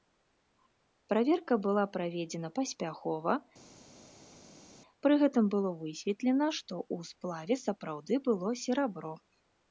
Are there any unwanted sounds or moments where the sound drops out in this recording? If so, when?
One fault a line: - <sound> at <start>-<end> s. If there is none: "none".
none